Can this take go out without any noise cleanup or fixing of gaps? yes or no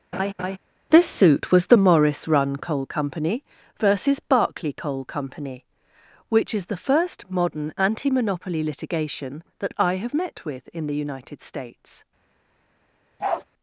no